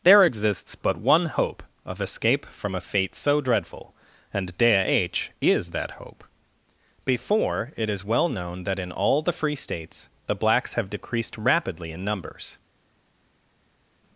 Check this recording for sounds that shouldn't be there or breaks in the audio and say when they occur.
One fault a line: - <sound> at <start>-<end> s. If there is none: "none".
none